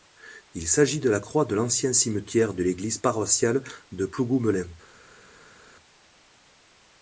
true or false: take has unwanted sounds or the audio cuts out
false